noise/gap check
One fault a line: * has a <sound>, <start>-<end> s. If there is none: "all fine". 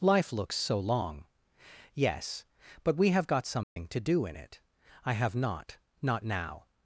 * has a dropout, 3.6-3.8 s